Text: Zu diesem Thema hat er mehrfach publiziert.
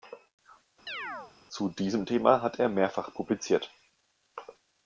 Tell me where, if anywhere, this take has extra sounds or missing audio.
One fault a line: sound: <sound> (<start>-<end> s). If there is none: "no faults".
sound: chirp (0.9-1.3 s)